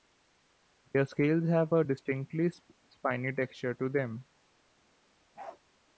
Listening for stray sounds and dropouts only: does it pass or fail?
fail